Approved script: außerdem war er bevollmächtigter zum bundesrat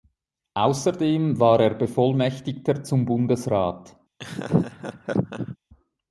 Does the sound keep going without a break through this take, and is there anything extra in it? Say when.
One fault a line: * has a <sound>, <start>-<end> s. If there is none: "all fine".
* has a laugh, 4.2-5.6 s